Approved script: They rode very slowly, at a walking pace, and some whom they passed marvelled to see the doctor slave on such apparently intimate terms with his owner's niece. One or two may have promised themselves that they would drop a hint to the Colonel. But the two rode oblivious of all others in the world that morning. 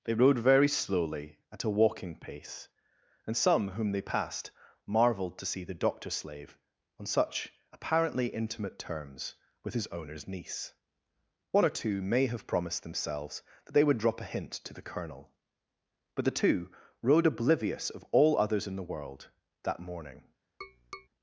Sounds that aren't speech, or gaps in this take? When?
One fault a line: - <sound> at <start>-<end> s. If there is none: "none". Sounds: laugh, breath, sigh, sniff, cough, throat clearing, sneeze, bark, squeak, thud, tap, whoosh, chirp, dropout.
- tap at 20.6-21.1 s